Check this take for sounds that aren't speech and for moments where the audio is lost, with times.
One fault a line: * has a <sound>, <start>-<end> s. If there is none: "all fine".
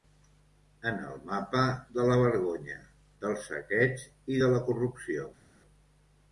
all fine